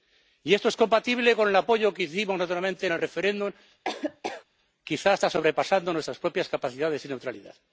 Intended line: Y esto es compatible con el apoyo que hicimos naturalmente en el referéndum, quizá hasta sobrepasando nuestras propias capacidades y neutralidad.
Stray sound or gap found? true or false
true